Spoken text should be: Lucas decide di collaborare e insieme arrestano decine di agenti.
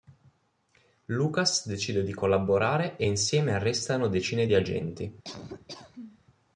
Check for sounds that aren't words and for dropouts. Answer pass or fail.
fail